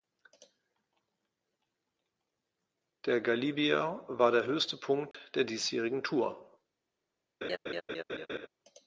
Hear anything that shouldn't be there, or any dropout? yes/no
yes